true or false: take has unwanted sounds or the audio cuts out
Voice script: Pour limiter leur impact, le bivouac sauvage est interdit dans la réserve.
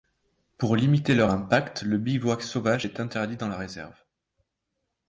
false